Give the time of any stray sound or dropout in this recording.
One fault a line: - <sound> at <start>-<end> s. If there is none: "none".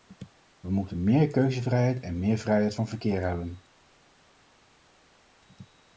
none